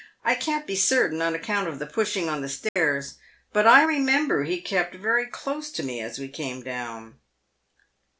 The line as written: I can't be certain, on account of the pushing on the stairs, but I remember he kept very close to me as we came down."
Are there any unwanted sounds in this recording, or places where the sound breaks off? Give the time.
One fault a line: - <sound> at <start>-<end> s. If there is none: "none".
- dropout at 2.7-2.8 s